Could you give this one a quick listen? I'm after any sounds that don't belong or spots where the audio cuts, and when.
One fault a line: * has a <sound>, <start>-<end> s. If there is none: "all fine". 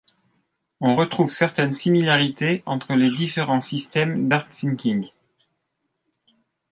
all fine